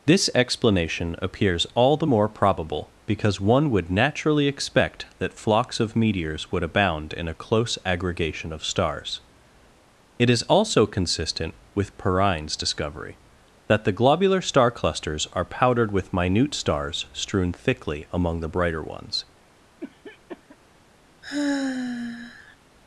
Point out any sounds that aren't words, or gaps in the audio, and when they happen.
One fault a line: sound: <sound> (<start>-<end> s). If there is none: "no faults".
sound: cough (19.8-20.6 s)
sound: sigh (21.2-22.6 s)